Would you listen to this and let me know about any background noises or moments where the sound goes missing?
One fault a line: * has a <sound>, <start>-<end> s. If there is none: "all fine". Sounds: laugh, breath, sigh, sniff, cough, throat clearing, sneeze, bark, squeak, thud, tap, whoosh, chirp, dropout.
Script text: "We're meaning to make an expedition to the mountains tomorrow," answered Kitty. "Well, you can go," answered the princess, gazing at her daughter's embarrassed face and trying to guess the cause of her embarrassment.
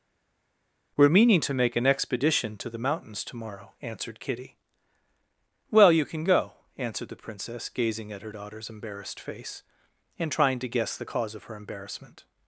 all fine